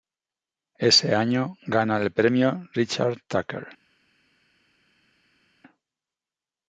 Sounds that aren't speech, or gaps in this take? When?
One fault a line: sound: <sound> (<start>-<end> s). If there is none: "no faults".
no faults